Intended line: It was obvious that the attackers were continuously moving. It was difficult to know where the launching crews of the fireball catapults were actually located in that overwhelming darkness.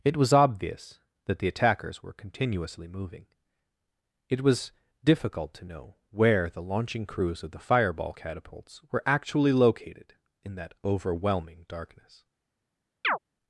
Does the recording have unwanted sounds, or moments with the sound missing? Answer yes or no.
yes